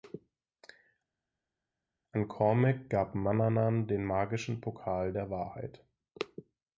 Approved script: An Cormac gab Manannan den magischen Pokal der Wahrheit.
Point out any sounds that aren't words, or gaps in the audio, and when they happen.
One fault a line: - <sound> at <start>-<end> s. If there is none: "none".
none